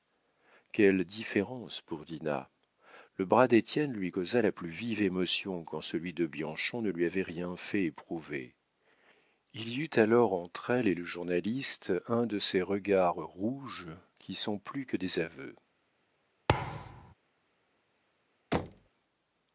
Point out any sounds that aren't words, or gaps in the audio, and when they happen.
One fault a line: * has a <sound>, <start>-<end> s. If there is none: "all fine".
* has a thud, 16.5-17.1 s
* has a thud, 18.5-18.9 s